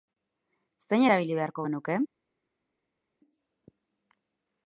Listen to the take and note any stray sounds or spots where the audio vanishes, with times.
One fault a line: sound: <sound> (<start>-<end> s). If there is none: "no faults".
no faults